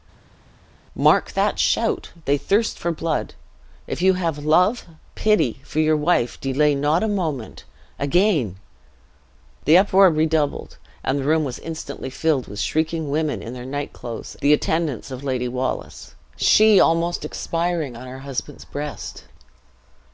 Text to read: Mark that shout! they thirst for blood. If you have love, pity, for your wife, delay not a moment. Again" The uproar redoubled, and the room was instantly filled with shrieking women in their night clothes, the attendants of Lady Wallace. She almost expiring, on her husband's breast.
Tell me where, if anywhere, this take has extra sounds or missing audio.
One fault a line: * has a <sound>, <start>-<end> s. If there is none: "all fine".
all fine